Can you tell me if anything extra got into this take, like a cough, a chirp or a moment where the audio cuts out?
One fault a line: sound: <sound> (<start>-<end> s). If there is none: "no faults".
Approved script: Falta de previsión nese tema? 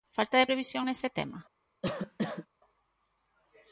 sound: cough (1.8-2.5 s)